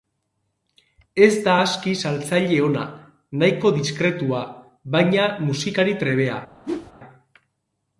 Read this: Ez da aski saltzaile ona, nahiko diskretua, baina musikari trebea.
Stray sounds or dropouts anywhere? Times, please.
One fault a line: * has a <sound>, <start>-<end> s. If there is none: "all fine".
* has a whoosh, 6.6-6.9 s